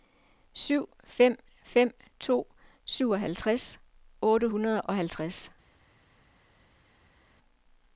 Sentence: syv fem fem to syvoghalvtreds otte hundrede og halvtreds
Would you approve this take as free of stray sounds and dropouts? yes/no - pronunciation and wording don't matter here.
yes